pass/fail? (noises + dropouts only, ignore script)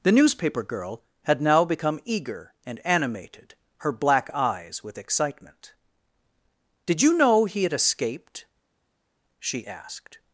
pass